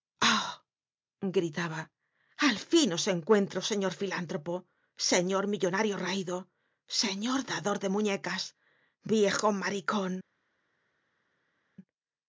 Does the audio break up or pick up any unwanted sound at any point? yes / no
no